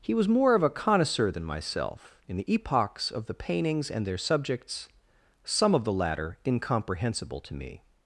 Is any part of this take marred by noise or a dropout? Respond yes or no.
no